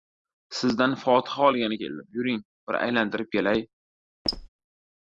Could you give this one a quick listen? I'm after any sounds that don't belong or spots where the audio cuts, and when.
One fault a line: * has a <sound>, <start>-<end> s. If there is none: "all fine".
* has a squeak, 4.2-4.5 s